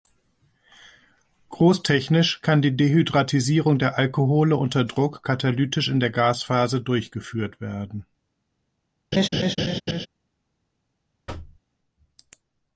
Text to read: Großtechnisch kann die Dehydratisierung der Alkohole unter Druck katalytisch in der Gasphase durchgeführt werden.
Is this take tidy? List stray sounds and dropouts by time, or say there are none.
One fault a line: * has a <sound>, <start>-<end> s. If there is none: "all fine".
* has a laugh, 9.1-10.1 s
* has a thud, 11.3-11.6 s